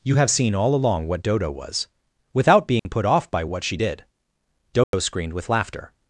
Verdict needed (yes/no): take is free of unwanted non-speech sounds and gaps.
no